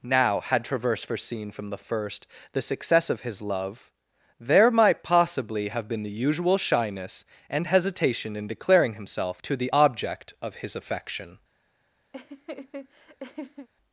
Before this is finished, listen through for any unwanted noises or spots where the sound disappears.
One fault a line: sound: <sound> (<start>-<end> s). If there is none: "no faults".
sound: laugh (12.1-13.7 s)